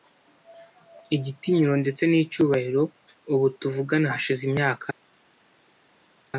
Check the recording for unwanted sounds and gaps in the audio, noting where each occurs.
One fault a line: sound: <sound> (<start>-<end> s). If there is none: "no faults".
no faults